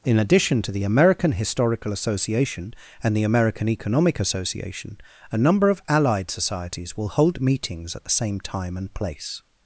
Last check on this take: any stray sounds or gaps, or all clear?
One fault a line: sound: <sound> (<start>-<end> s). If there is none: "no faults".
no faults